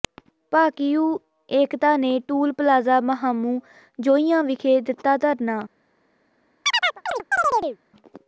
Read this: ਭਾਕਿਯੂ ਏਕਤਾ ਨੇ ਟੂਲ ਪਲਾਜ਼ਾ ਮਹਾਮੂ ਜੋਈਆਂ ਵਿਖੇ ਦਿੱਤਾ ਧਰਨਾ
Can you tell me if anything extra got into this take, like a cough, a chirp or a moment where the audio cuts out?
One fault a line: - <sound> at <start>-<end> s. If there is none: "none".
- chirp at 6.6-7.8 s